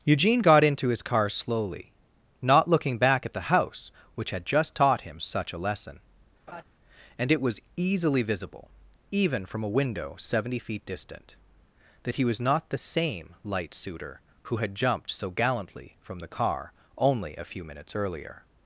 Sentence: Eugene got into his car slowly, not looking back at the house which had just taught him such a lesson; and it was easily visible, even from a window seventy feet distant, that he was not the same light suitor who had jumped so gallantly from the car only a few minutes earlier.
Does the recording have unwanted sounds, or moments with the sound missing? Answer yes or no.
yes